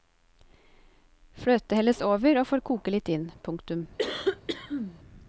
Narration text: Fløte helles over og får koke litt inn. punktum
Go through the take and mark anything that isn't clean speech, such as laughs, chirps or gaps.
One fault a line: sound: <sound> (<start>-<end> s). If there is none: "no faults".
sound: cough (4.0-5.0 s)